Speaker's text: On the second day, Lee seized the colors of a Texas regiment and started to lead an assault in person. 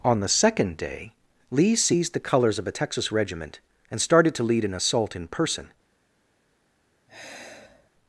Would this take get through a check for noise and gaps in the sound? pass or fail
fail